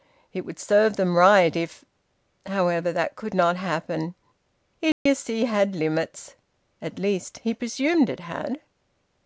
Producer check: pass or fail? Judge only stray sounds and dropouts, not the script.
fail